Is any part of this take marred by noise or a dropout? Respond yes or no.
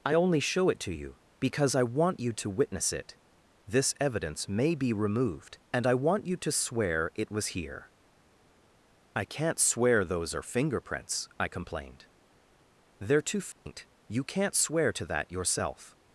yes